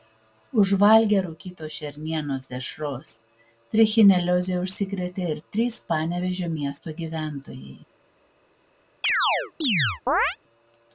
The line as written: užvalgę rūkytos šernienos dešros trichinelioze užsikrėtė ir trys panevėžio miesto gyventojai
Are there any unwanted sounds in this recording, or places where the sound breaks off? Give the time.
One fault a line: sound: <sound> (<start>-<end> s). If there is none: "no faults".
sound: chirp (9.0-10.4 s)